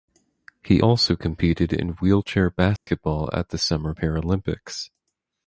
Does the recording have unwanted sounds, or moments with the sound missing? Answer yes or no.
yes